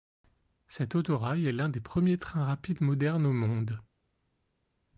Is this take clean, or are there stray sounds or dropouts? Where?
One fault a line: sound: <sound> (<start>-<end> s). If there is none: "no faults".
no faults